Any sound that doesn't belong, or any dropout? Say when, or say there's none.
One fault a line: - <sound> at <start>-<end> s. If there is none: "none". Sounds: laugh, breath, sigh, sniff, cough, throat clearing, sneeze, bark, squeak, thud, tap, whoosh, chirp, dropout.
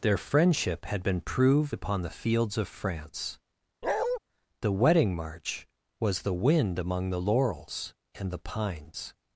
- bark at 3.8-4.2 s